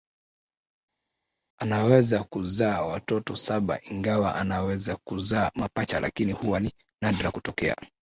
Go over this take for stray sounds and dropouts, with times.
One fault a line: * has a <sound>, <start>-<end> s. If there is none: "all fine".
all fine